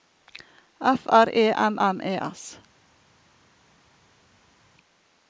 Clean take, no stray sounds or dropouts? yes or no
yes